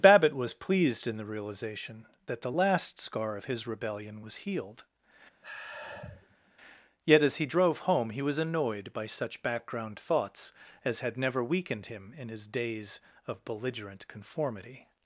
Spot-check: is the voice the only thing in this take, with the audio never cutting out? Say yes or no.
no